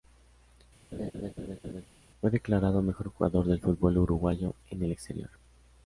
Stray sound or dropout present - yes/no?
yes